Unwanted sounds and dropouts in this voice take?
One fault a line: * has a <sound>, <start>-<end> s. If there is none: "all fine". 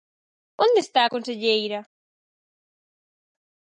all fine